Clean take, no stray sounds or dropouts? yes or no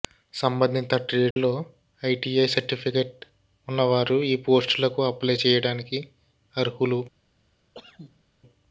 no